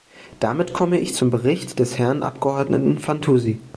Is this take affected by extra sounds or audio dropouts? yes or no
no